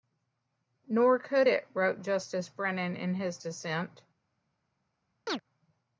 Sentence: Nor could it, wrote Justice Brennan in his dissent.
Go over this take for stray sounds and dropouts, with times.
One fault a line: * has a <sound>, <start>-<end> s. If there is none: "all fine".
* has a chirp, 5.3-5.4 s